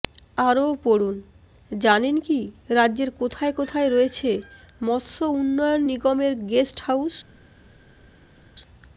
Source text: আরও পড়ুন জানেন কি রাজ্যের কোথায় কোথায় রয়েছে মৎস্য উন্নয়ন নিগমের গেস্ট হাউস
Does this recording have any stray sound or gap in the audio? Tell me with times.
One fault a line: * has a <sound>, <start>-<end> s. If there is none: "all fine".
all fine